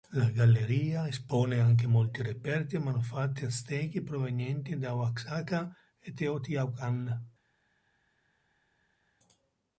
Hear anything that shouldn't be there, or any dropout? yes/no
no